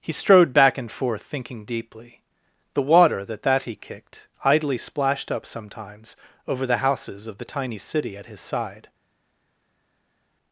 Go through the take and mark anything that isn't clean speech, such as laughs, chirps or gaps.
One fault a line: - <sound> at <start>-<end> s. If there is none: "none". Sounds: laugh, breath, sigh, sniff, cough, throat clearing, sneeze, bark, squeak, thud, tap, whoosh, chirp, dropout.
none